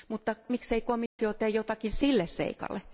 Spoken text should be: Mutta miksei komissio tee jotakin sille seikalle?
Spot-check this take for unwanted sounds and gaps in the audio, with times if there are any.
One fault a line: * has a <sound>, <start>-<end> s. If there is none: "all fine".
* has a dropout, 1.1-1.2 s